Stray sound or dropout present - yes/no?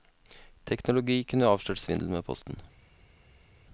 no